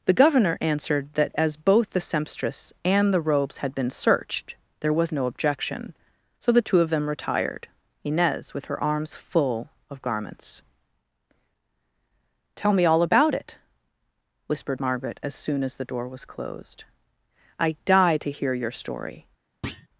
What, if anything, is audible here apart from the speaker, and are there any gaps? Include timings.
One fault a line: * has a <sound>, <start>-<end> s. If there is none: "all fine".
* has a thud, 19.6-19.9 s